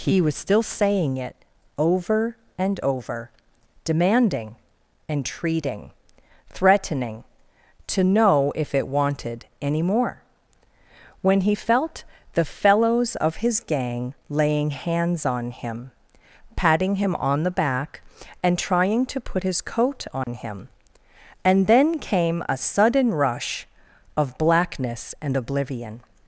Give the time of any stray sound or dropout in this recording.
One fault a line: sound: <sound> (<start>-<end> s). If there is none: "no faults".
sound: dropout (20.2-20.3 s)